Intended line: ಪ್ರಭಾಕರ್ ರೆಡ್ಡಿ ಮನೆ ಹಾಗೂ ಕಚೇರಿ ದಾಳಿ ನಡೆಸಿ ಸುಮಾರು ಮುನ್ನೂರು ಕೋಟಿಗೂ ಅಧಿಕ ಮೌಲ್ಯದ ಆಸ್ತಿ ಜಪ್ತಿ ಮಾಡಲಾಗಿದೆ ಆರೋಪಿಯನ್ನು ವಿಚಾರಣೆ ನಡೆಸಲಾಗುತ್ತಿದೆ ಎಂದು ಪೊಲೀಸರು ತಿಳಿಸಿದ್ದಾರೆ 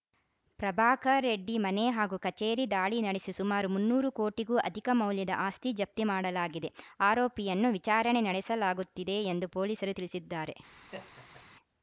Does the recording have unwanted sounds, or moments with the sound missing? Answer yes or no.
yes